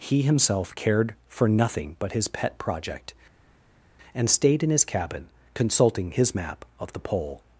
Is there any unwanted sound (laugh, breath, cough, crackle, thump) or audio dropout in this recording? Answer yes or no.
no